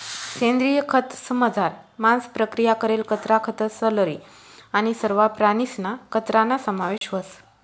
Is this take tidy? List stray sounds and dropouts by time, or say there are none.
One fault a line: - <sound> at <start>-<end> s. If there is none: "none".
- dropout at 7.0-7.0 s